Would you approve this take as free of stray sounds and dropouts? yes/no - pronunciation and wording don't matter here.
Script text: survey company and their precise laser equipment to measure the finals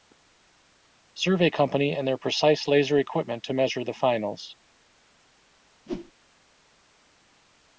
no